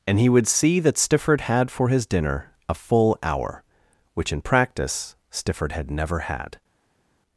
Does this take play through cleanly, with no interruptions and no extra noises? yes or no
yes